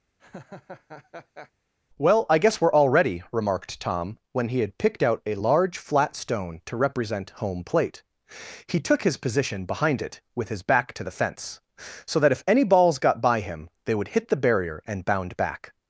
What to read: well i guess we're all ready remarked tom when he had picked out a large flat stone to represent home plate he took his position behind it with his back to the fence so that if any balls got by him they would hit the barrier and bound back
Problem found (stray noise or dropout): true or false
true